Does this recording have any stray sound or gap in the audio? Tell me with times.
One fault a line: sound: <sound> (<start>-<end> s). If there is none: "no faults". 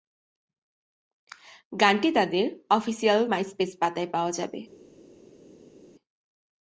no faults